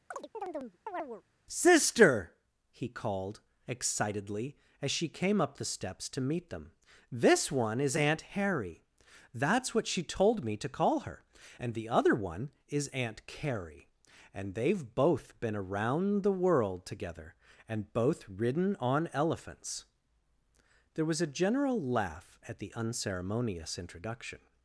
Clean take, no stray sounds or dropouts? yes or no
no